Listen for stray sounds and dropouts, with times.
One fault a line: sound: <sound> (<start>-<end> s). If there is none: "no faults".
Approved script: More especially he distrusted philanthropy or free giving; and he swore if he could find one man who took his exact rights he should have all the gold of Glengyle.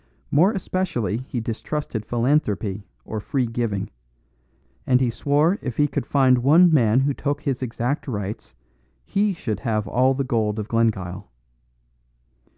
no faults